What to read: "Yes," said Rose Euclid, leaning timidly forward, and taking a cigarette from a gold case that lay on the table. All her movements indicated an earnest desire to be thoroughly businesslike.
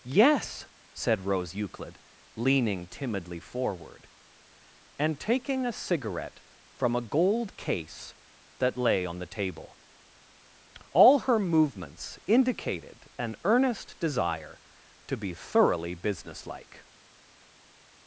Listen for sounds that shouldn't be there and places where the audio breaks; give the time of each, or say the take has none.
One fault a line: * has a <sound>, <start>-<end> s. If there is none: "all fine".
all fine